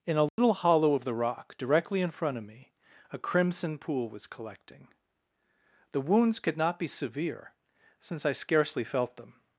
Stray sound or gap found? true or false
true